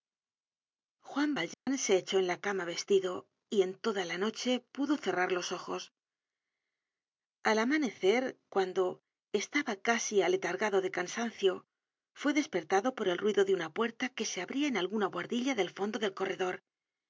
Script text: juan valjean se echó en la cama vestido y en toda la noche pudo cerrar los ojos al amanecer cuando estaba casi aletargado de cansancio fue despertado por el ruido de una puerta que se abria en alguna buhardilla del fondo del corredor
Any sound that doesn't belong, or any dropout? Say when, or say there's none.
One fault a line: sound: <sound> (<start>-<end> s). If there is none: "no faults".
sound: dropout (1.5-1.7 s)